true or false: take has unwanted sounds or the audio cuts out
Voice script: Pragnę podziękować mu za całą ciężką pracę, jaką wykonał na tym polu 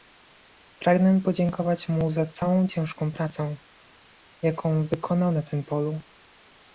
false